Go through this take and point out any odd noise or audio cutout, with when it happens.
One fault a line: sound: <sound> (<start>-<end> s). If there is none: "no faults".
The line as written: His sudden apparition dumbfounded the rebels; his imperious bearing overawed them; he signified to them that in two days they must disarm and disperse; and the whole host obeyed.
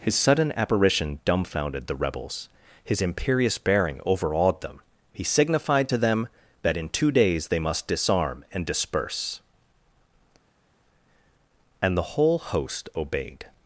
no faults